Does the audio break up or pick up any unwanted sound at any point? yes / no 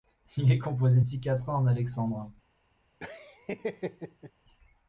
yes